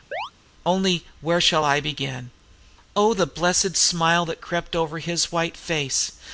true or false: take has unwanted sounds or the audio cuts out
true